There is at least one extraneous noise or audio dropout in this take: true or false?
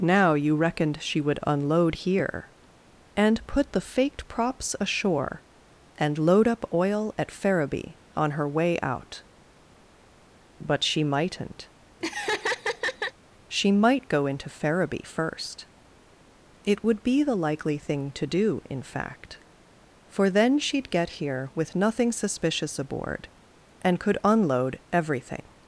true